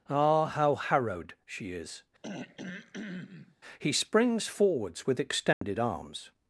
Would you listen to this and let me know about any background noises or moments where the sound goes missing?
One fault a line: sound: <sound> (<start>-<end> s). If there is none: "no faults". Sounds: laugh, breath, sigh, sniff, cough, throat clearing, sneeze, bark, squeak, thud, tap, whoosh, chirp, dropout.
sound: throat clearing (2.2-3.6 s)
sound: dropout (5.5-5.6 s)